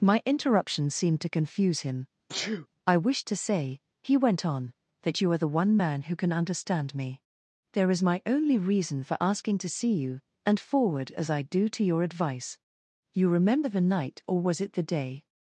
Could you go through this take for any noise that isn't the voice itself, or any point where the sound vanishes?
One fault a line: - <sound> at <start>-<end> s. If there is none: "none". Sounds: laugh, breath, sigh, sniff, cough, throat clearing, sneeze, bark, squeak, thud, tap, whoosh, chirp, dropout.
- sneeze at 2.3-2.7 s